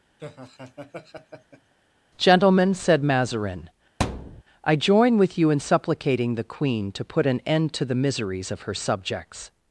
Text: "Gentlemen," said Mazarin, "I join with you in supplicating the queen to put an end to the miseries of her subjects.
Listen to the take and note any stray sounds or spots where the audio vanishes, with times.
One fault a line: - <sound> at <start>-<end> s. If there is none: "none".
- laugh at 0.2-1.7 s
- thud at 4.0-4.4 s